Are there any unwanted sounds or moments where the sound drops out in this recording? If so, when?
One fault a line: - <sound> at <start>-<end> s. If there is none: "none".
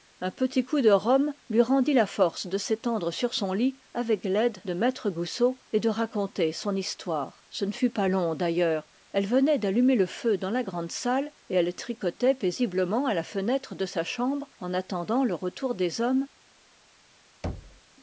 - thud at 17.4-17.8 s